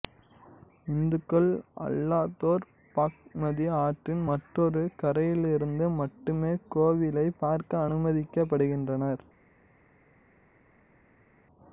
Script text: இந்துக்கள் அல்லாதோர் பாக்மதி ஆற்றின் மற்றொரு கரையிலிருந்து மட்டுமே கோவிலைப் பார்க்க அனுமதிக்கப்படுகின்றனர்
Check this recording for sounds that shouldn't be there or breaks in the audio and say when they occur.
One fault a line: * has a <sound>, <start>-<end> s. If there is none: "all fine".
all fine